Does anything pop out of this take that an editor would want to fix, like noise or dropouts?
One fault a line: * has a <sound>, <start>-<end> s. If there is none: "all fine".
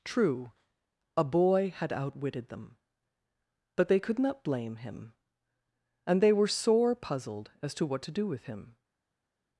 all fine